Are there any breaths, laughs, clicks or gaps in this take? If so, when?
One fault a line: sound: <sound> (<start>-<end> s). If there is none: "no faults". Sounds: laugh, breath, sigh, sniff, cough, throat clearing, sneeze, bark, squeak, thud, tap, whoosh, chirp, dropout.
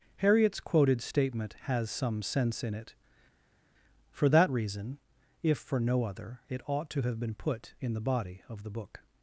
no faults